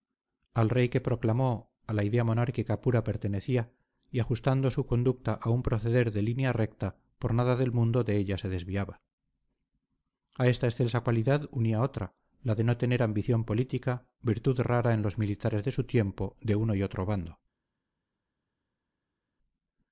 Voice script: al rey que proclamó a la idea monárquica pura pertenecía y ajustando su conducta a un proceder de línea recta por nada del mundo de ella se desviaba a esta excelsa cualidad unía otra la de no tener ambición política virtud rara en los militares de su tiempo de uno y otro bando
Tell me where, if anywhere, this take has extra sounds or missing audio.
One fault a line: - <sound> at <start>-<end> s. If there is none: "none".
none